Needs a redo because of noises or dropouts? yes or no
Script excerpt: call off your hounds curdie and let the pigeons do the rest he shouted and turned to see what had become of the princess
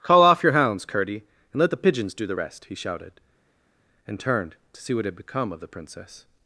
no